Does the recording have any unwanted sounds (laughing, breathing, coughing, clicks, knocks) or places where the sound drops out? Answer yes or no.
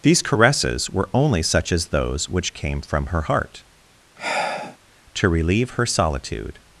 yes